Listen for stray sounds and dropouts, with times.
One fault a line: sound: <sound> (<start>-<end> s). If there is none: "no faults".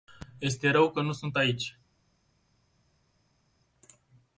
no faults